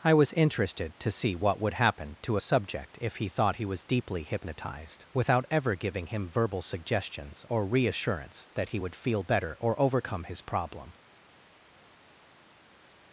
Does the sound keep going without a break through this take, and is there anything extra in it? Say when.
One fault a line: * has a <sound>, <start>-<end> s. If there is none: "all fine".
all fine